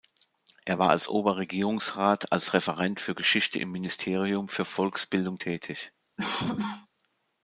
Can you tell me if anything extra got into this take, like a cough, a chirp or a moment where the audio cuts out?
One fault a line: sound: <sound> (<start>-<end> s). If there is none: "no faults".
sound: cough (6.2-6.9 s)